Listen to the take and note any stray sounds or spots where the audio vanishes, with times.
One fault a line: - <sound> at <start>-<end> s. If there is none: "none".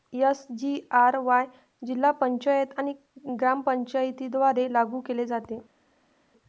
none